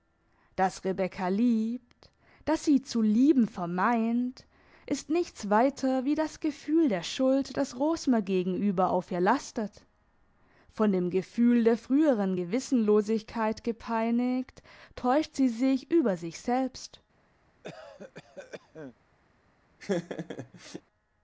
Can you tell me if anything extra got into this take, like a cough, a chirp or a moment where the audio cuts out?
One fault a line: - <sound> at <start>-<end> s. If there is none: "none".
- cough at 17.6-19.0 s
- laugh at 19.8-20.8 s